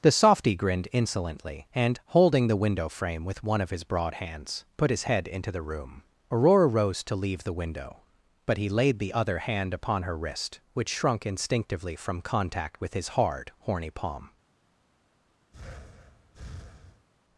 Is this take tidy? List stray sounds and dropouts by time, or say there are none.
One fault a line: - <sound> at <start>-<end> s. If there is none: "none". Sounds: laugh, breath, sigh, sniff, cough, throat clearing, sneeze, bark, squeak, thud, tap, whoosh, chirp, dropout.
- breath at 15.5-17.1 s